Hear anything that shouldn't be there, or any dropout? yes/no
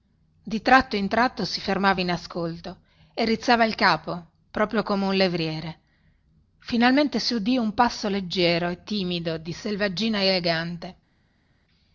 no